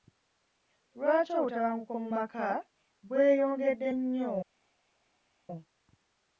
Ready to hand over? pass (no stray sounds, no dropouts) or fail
pass